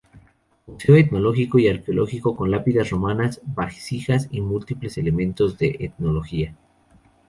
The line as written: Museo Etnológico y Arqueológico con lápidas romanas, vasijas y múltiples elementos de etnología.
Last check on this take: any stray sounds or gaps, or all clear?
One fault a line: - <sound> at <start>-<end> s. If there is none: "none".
none